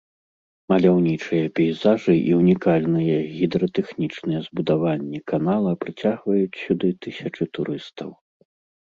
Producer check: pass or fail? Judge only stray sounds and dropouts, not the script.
pass